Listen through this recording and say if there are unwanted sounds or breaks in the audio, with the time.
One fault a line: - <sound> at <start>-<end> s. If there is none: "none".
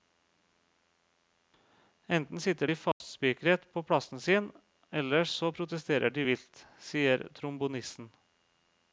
- dropout at 2.9-3.0 s